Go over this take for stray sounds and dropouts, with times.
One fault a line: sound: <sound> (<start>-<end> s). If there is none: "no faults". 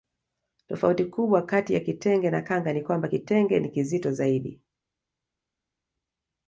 no faults